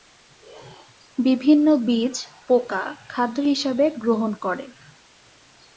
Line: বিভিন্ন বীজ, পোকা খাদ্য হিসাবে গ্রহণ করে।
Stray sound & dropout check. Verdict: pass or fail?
pass